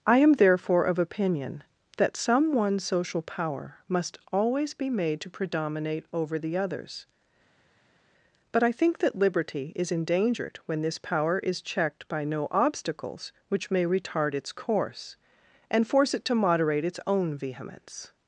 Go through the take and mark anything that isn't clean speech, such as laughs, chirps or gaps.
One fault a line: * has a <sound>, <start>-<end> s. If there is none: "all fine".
all fine